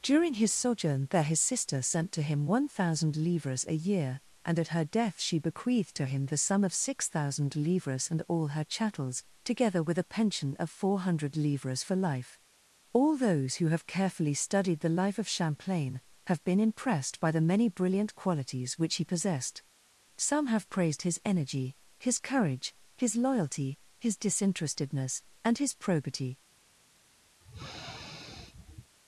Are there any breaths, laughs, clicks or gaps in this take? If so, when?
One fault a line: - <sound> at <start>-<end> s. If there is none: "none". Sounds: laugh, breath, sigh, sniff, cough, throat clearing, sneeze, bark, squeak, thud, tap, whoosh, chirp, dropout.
- sniff at 27.4-28.9 s